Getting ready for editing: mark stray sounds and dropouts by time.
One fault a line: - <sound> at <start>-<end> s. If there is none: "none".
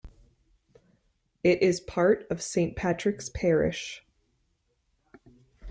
none